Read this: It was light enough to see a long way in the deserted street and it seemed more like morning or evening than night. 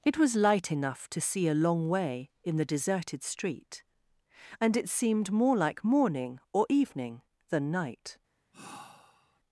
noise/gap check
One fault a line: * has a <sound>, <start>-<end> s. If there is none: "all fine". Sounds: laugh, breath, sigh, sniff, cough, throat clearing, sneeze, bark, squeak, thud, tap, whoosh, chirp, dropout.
* has a sigh, 8.5-9.4 s